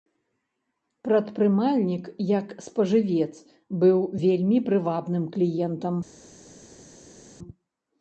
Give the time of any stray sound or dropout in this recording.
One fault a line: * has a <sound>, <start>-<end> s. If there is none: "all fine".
all fine